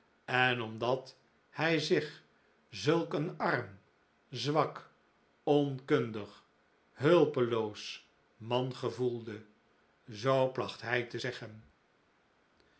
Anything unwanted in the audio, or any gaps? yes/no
no